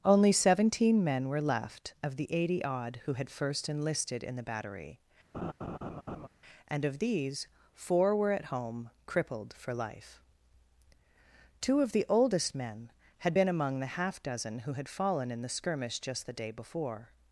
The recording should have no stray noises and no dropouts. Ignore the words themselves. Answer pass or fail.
fail